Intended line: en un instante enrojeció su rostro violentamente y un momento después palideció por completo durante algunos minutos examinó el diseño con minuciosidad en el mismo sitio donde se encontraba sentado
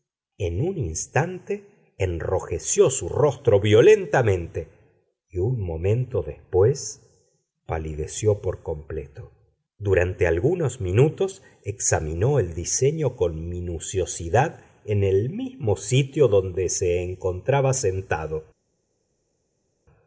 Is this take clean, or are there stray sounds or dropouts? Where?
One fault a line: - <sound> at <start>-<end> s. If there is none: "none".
none